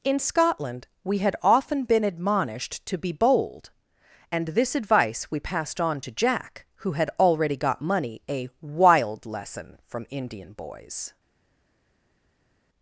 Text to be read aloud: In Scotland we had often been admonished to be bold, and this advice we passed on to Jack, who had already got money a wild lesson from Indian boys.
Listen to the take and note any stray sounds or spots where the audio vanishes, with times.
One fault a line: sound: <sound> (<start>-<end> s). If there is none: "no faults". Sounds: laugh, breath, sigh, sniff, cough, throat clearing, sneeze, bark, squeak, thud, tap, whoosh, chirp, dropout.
no faults